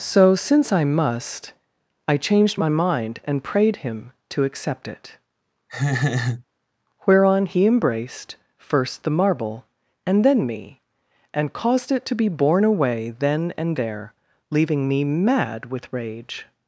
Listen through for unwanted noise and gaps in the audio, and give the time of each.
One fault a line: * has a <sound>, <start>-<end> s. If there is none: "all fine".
* has a laugh, 5.7-6.4 s